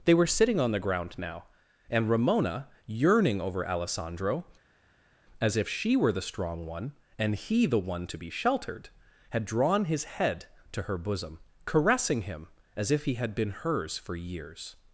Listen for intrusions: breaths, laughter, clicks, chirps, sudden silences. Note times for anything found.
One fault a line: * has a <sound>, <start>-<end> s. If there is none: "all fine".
all fine